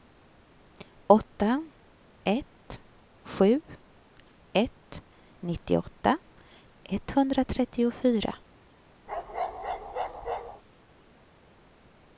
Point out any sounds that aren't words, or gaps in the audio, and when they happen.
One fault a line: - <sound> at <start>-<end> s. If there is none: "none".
- bark at 9.1-10.6 s